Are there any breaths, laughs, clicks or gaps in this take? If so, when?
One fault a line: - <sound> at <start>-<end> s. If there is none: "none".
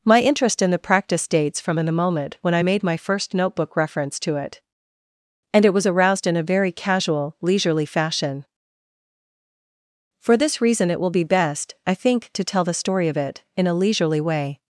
none